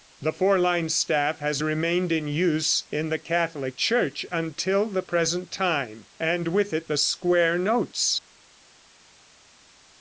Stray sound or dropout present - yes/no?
no